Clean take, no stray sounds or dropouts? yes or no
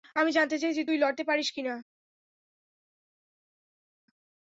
yes